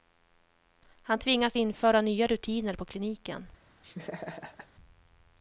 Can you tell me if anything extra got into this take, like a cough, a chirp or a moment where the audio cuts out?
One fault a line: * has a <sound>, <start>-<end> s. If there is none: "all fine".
* has a laugh, 3.8-4.7 s